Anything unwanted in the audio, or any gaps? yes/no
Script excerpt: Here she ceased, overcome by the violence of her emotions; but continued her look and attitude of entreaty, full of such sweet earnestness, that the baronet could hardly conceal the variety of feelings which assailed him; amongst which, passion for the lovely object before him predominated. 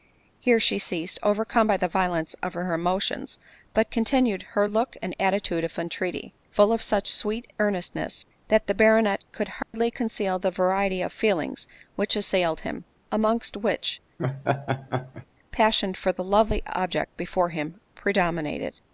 yes